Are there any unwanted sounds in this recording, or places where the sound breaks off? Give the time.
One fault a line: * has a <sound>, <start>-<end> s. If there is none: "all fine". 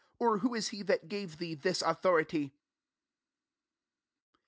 all fine